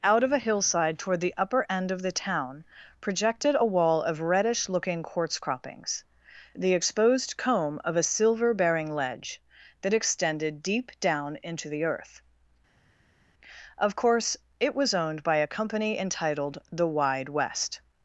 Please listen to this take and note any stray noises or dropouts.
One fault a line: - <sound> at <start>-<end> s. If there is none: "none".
none